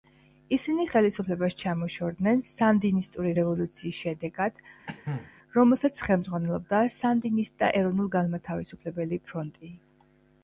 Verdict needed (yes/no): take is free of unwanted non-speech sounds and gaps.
no